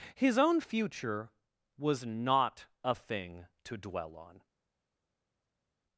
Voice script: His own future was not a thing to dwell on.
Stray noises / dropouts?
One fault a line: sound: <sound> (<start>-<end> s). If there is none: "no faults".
no faults